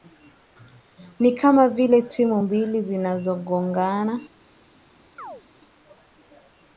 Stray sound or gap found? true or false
true